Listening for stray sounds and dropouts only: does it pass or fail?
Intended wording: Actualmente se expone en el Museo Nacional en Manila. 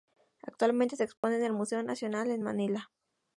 fail